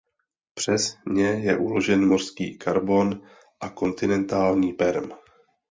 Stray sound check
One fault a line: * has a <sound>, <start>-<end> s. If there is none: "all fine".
all fine